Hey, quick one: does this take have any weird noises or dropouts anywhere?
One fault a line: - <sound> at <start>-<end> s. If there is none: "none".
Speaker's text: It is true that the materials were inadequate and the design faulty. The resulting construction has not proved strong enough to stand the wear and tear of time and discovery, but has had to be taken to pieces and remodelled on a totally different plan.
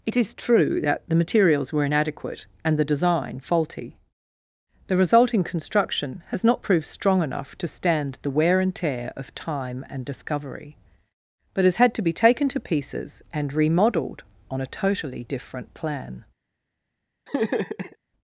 - laugh at 17.3-18.0 s